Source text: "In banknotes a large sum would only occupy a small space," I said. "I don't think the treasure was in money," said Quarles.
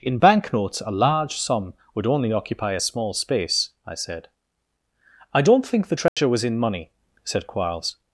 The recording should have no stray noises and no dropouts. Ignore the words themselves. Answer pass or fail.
fail